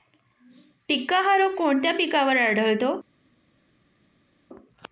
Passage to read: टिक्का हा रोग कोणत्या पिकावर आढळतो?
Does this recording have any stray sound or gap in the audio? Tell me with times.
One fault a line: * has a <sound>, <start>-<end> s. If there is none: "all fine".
all fine